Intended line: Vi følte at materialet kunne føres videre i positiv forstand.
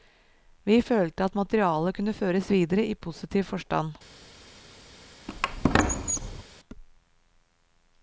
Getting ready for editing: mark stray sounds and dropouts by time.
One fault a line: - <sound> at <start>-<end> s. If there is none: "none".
- squeak at 5.3-6.4 s